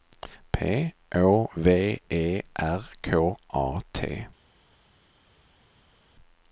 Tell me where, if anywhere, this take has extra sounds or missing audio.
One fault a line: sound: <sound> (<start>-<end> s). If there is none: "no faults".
no faults